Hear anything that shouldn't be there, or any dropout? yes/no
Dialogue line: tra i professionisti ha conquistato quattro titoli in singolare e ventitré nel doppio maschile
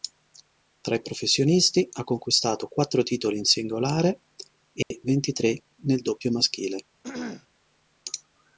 yes